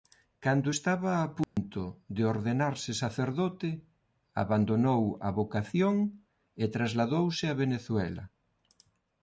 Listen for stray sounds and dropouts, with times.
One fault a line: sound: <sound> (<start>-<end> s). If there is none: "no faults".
sound: dropout (1.4-1.6 s)